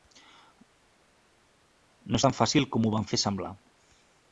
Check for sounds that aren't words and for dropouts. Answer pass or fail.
pass